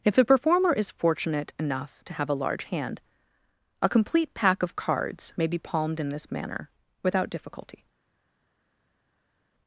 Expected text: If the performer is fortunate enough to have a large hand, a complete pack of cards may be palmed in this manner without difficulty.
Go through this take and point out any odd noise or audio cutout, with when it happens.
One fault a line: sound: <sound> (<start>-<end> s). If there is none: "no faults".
no faults